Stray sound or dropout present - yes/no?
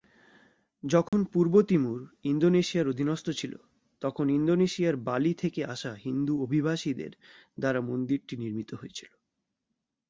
yes